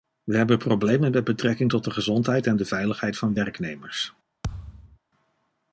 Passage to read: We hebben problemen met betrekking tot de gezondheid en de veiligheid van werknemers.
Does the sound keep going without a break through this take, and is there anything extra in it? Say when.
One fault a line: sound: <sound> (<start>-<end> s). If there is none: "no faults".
sound: thud (4.4-5.0 s)